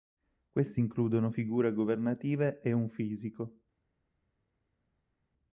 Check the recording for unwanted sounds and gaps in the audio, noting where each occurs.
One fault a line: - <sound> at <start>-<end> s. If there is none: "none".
none